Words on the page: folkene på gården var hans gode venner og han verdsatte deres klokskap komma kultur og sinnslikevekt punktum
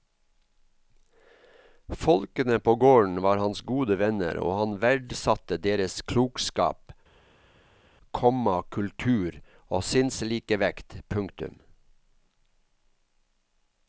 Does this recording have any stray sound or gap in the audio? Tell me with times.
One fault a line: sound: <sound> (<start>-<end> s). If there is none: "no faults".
no faults